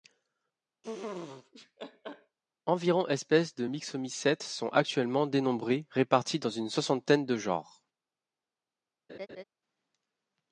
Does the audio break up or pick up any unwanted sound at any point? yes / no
yes